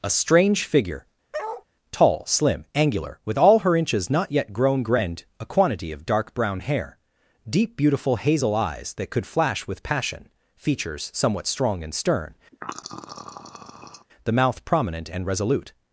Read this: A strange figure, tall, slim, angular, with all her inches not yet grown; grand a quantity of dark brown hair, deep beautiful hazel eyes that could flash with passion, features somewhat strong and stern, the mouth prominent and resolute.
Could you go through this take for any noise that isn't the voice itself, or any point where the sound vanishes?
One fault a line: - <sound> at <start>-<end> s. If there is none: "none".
- bark at 1.3-1.6 s
- throat clearing at 12.5-14.1 s